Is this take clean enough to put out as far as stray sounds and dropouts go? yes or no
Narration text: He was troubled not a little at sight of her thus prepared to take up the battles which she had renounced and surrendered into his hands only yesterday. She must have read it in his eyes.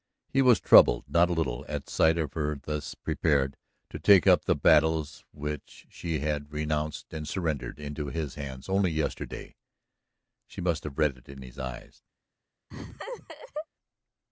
no